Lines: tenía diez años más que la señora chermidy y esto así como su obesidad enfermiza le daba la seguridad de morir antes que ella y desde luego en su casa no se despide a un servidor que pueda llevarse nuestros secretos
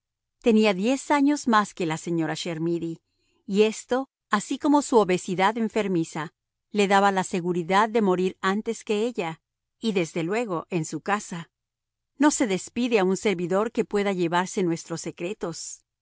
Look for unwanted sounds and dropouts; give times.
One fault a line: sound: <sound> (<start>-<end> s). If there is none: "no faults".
no faults